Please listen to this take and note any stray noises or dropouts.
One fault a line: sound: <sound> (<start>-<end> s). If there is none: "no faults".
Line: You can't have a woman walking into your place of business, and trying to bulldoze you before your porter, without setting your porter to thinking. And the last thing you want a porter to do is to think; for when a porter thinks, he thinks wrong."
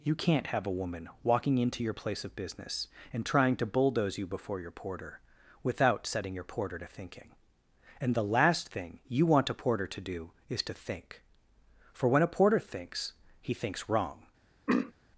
sound: throat clearing (14.7-14.9 s)